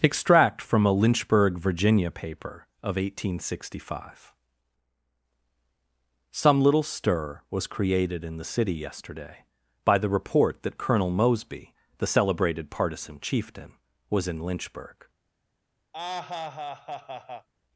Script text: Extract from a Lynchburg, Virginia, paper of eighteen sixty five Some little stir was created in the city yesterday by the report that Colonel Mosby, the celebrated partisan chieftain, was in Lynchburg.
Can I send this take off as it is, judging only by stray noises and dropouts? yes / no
no